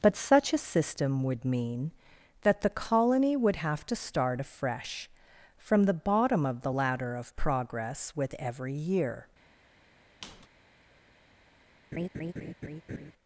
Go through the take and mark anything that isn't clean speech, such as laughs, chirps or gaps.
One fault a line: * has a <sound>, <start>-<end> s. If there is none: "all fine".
* has a squeak, 10.2-10.5 s
* has a laugh, 11.9-13.1 s